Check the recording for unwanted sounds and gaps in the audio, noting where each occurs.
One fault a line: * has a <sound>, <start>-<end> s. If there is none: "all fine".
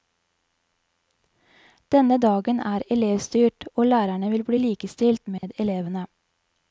* has a dropout, 5.4-5.4 s